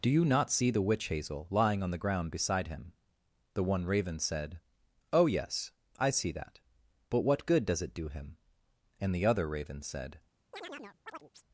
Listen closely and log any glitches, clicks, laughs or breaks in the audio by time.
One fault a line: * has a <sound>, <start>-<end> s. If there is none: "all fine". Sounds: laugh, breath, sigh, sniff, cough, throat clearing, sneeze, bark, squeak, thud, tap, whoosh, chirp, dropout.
* has a chirp, 10.5-11.4 s